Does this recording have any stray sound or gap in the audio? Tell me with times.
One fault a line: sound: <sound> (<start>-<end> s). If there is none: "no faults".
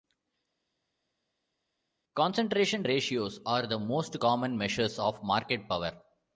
no faults